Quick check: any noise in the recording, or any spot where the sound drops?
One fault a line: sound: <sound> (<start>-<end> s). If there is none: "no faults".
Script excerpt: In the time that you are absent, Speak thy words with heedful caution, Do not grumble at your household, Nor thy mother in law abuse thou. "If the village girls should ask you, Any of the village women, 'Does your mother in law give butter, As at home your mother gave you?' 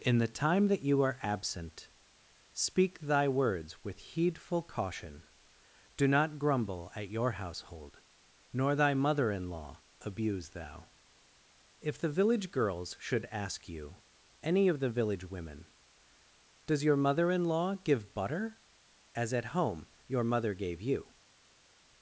no faults